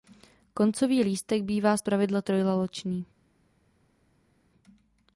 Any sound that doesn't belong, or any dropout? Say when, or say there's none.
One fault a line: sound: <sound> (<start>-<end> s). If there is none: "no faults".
no faults